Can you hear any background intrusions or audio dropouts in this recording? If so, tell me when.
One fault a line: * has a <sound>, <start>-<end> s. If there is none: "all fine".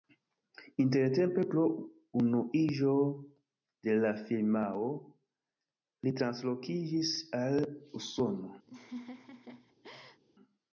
* has a laugh, 8.7-10.2 s